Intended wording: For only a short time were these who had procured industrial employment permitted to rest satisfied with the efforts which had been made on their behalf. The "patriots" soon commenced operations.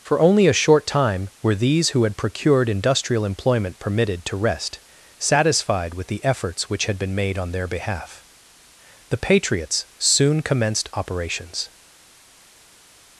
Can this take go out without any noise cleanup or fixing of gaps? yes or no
yes